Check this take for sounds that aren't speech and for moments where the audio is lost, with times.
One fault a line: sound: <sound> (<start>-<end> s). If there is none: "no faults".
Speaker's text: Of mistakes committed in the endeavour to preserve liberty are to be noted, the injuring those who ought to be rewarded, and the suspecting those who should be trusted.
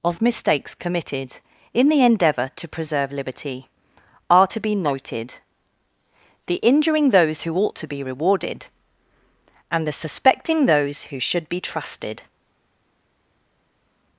no faults